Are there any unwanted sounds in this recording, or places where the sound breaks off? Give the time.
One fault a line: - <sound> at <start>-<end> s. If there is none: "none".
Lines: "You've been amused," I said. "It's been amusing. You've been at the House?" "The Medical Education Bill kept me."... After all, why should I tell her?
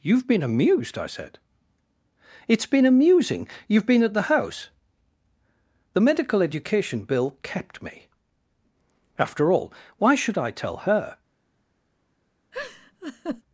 - laugh at 12.5-13.4 s